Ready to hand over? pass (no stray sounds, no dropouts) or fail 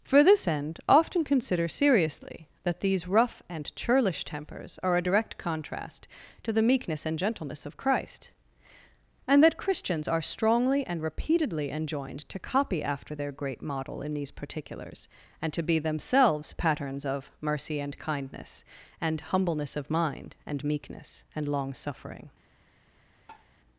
fail